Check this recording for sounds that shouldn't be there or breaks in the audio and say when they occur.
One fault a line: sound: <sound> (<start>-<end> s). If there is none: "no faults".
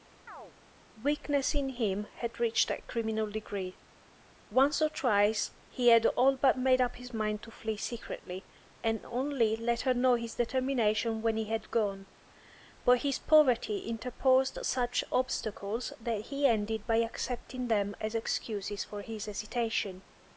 sound: chirp (0.3-0.5 s)